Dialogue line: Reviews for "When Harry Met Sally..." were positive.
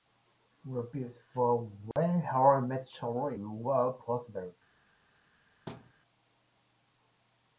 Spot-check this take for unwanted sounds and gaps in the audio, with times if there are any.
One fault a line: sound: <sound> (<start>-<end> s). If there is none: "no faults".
sound: dropout (1.9-2.0 s)
sound: thud (5.7-5.9 s)